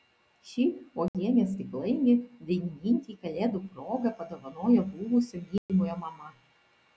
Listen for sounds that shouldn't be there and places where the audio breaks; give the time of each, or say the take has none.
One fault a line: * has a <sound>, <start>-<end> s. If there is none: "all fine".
* has a dropout, 1.1-1.1 s
* has a dropout, 5.6-5.7 s